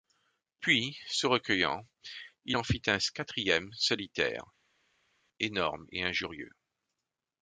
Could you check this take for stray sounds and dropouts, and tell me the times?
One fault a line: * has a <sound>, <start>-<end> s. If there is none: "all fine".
all fine